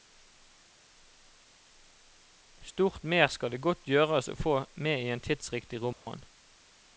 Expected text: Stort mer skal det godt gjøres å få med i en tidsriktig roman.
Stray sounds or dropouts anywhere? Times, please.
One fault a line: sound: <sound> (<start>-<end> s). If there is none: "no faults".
sound: dropout (5.9-6.1 s)